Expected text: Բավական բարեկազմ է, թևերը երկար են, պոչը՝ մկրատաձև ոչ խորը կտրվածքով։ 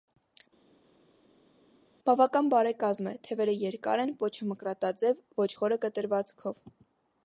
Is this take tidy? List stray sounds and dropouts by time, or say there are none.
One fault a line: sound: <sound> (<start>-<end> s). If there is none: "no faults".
no faults